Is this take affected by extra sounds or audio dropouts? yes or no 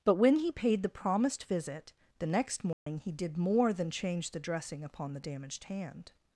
yes